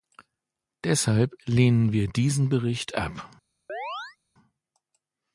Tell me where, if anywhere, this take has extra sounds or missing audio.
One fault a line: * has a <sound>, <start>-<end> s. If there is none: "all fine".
* has a chirp, 3.7-4.2 s